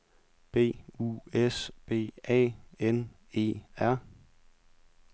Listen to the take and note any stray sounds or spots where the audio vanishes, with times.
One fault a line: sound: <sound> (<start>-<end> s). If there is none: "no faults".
no faults